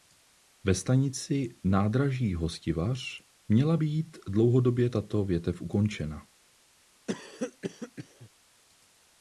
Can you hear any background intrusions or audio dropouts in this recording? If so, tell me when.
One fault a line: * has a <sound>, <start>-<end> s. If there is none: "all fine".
* has a cough, 7.1-8.3 s